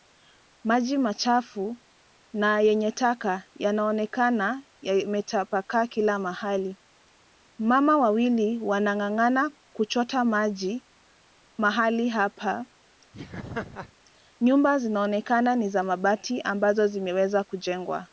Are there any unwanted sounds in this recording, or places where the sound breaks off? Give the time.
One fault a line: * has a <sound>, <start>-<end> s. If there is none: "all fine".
* has a laugh, 13.1-13.9 s